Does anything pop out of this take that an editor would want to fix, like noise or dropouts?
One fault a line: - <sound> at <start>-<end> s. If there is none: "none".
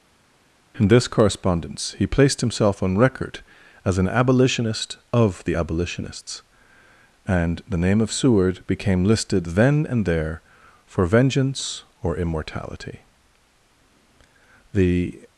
none